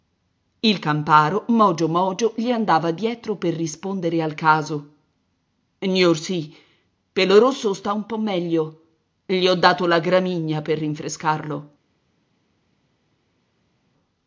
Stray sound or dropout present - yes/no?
no